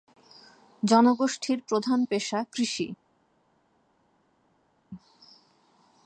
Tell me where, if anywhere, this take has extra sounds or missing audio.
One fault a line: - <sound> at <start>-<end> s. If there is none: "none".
none